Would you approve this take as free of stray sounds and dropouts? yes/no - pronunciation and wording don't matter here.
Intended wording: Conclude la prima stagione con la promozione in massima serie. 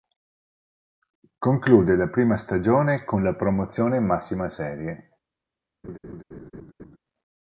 no